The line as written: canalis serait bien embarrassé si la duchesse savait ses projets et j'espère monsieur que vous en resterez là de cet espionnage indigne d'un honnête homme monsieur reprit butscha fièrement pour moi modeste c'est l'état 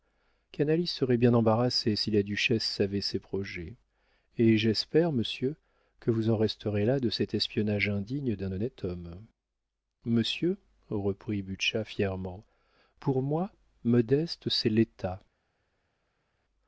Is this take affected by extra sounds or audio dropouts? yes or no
no